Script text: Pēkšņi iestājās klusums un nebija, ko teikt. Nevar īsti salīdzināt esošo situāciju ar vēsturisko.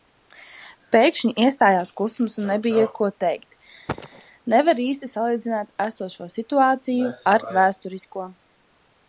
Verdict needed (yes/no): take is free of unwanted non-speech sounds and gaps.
no